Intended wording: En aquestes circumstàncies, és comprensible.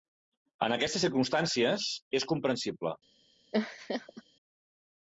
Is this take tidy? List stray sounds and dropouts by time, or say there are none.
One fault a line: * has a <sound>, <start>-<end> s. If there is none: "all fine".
* has a laugh, 3.5-4.2 s